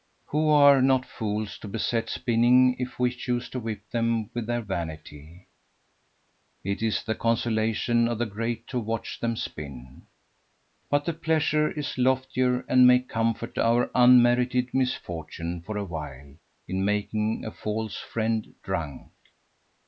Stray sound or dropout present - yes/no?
no